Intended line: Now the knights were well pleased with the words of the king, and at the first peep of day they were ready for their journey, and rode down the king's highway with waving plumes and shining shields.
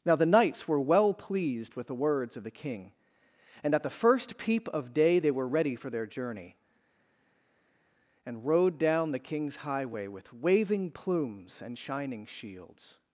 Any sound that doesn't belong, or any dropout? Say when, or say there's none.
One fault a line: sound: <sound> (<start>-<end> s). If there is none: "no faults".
no faults